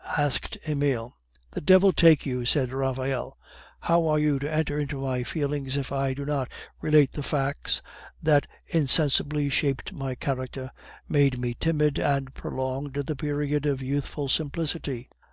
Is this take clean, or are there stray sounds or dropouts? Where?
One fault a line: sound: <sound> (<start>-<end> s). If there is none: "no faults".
no faults